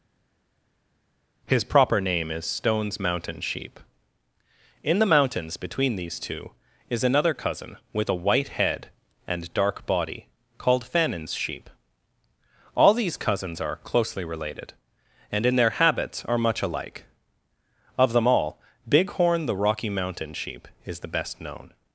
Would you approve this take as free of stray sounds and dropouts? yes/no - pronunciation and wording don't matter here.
yes